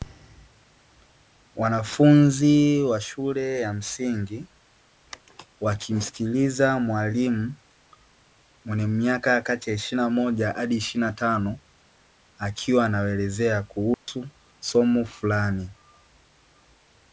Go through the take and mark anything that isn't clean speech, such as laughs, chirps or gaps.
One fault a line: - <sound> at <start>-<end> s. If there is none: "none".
- dropout at 13.9-14.1 s